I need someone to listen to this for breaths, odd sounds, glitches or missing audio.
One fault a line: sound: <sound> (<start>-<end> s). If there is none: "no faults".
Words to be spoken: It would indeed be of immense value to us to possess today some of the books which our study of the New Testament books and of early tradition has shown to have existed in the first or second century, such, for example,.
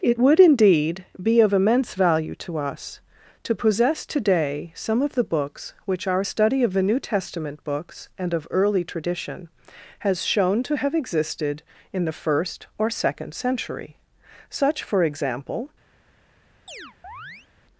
sound: chirp (16.7-17.5 s)